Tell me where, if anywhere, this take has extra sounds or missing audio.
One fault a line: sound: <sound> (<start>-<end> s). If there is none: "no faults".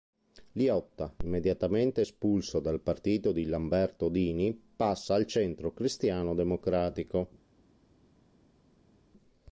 no faults